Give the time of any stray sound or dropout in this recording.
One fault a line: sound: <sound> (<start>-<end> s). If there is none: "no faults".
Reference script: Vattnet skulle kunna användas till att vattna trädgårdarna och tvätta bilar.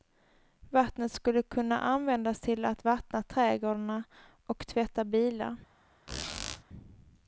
sound: squeak (6.1-6.6 s)